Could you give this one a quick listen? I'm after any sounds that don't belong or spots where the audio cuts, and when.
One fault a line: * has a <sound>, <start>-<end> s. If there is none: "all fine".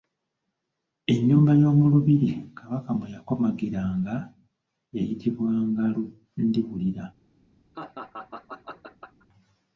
* has a laugh, 7.7-9.3 s